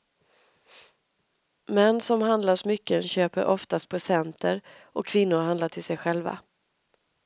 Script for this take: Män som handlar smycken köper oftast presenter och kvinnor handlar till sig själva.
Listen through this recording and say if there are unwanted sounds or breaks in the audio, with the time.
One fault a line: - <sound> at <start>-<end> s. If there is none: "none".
none